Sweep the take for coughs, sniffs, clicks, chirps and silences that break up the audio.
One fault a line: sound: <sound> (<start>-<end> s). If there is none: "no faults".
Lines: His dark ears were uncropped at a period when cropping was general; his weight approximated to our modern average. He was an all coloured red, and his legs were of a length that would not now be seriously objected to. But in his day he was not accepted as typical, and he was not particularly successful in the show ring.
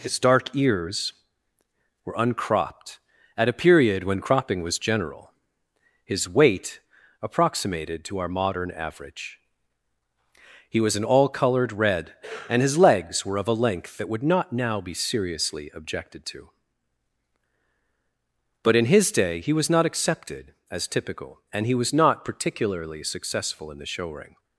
no faults